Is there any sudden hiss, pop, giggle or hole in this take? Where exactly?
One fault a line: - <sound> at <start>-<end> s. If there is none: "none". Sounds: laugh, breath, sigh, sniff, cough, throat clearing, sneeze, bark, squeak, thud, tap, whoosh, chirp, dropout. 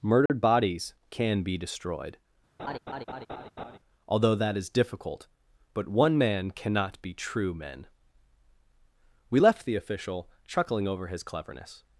- dropout at 0.3-0.3 s
- laugh at 2.6-3.8 s